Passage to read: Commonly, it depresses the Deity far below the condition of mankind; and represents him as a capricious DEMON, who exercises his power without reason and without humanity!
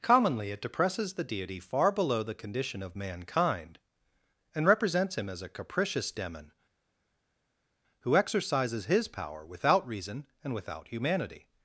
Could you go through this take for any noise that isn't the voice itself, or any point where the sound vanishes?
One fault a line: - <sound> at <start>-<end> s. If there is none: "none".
none